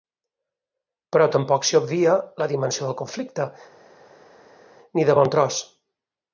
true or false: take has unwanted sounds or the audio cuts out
false